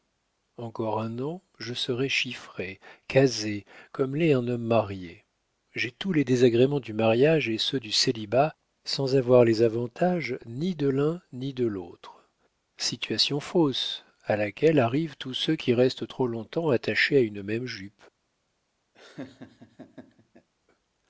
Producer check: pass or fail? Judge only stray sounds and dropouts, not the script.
fail